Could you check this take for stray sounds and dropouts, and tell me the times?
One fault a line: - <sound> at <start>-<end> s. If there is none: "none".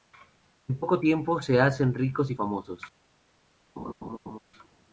- laugh at 3.8-4.4 s